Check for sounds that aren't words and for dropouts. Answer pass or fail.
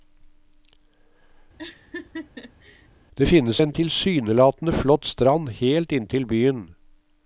fail